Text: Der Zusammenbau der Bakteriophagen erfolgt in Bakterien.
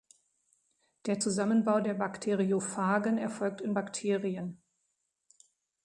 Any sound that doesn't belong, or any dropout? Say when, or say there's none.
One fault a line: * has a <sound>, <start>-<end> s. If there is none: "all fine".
all fine